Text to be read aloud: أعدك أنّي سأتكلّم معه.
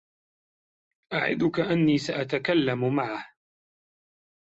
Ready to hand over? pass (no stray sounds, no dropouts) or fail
pass